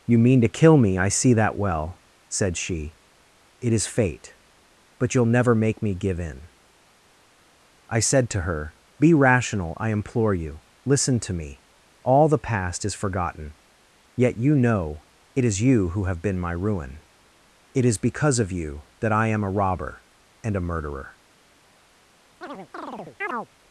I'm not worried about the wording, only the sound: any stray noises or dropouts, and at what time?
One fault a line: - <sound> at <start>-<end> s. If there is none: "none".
- chirp at 22.4-23.5 s